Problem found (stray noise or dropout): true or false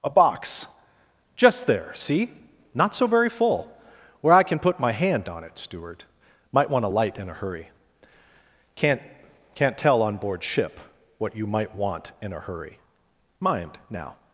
false